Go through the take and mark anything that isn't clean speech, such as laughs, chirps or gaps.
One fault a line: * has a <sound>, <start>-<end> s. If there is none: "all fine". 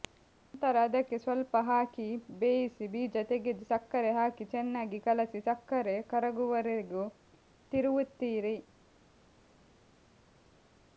all fine